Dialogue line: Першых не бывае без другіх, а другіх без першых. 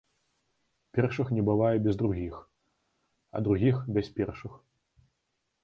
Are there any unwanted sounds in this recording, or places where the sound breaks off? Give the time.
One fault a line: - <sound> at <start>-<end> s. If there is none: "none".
none